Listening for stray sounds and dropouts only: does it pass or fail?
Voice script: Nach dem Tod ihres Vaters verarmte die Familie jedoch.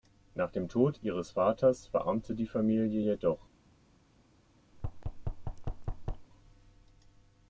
fail